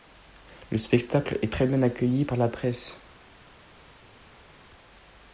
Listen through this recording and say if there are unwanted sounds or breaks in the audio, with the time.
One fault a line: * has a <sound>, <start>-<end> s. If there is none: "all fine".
all fine